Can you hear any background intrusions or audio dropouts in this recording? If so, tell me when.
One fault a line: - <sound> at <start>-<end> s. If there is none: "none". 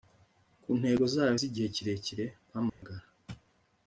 - dropout at 2.7-2.8 s